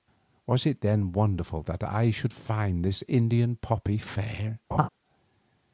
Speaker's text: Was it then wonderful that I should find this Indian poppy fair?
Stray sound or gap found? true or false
true